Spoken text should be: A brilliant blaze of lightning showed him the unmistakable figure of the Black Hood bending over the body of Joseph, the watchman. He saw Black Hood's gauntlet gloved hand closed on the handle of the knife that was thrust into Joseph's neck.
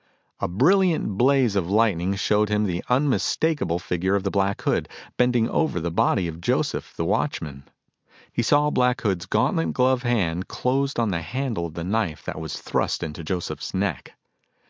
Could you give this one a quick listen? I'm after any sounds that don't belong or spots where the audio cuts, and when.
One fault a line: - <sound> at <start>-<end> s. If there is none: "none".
none